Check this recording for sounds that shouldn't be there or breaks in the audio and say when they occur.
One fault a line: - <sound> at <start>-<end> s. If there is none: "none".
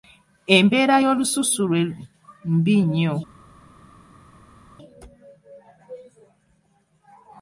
none